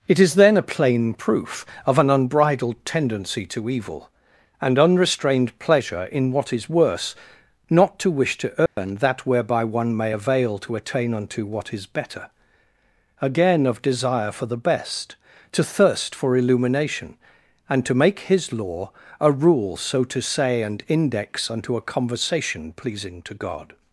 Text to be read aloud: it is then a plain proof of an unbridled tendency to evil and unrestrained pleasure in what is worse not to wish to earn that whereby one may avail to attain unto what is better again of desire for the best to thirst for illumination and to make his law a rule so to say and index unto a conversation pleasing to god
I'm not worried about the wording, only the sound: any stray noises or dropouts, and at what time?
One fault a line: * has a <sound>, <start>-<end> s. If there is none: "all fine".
* has a dropout, 8.7-8.8 s